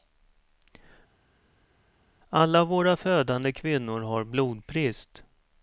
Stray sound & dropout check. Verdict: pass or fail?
pass